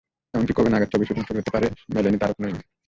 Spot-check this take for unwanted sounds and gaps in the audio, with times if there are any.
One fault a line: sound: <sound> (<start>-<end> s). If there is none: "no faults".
no faults